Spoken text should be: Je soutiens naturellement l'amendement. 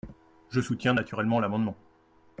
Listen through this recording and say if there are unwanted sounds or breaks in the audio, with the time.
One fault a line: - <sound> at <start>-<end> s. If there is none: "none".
none